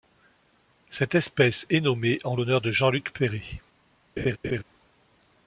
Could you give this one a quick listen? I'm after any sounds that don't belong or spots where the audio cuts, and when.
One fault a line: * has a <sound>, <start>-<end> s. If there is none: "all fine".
* has a laugh, 4.2-4.6 s